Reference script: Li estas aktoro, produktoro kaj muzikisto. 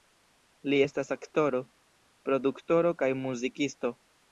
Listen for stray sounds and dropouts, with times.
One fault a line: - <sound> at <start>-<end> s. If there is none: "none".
none